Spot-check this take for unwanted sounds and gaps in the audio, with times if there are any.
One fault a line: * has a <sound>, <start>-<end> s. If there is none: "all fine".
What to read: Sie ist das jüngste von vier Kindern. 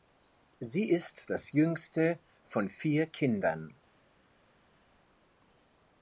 all fine